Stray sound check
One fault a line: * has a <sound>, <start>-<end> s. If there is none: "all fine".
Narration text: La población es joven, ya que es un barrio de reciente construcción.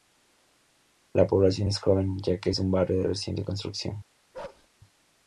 * has a bark, 4.3-4.7 s